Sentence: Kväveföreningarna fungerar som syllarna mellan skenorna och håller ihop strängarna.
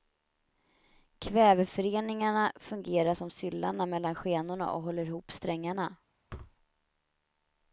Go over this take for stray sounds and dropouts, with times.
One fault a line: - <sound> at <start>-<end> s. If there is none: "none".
- thud at 6.3-6.6 s